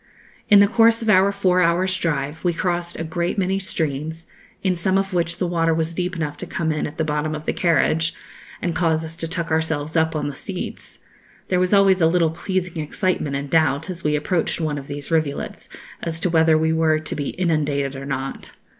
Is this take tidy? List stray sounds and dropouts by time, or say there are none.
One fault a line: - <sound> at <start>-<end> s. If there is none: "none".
none